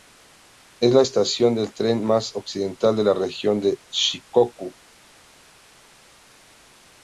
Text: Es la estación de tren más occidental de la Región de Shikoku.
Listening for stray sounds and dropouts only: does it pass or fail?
pass